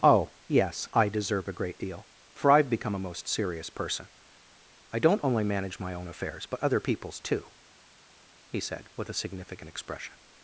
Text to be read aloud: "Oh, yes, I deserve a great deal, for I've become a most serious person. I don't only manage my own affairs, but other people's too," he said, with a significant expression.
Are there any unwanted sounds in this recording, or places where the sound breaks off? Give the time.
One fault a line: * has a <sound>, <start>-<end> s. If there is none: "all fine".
all fine